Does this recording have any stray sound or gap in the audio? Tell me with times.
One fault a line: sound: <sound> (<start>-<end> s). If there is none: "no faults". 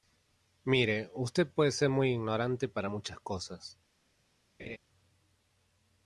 sound: laugh (4.6-4.8 s)